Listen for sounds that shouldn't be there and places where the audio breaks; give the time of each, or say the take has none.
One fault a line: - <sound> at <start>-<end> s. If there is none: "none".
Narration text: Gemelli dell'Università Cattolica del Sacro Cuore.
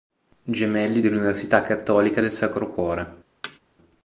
- thud at 3.4-3.6 s